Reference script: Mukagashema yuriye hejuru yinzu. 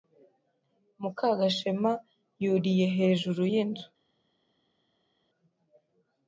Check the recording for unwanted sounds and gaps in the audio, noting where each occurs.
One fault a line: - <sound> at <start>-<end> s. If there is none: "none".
none